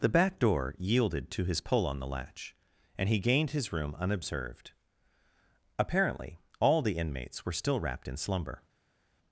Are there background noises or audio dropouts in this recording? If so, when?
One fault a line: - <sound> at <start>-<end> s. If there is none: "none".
none